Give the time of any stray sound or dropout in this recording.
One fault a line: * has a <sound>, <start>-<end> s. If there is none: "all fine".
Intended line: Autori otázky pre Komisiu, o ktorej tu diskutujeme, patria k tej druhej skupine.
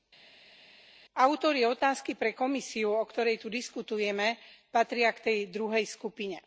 all fine